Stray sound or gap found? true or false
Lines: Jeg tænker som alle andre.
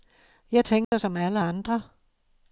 true